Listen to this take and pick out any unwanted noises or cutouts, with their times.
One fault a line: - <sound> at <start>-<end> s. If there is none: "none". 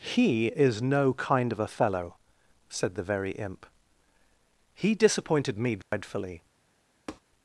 - dropout at 5.8-5.9 s
- tap at 7.1-7.2 s